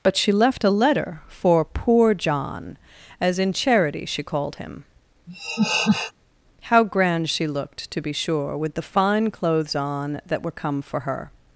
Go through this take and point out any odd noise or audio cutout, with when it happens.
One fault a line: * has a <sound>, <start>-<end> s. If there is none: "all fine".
* has a laugh, 5.3-6.1 s